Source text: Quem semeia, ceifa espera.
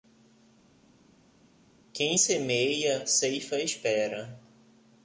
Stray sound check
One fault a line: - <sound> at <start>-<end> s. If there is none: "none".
none